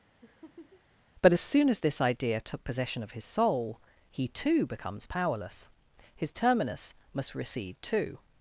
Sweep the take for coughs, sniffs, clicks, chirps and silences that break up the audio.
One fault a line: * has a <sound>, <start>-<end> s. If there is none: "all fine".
* has a laugh, 0.2-0.8 s